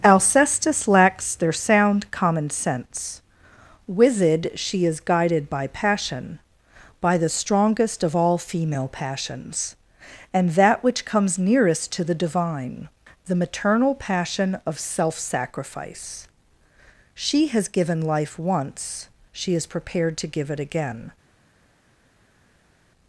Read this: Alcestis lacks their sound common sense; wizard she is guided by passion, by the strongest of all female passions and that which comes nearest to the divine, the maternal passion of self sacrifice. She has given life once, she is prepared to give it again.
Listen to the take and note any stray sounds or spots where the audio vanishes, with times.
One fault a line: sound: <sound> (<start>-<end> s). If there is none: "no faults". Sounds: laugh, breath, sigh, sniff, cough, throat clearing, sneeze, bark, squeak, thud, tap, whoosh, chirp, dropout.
no faults